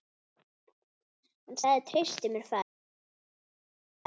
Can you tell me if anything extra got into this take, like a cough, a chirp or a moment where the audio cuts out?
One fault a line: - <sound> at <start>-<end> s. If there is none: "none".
none